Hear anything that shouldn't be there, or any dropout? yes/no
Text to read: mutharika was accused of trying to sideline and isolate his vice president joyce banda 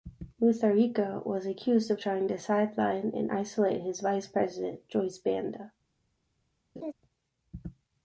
yes